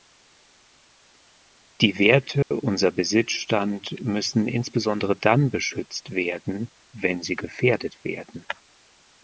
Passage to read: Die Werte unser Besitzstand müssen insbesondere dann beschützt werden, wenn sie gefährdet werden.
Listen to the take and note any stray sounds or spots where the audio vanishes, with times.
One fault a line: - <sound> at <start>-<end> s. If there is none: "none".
- dropout at 2.4-2.5 s